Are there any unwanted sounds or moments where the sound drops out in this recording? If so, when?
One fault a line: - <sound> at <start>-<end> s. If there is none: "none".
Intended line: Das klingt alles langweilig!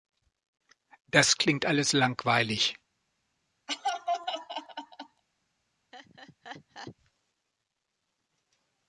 - laugh at 3.7-5.2 s
- laugh at 5.9-7.0 s